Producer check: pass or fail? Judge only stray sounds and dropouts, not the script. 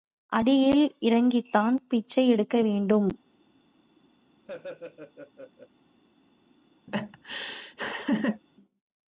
fail